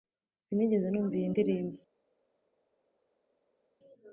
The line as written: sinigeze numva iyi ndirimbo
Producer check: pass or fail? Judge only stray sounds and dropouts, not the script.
pass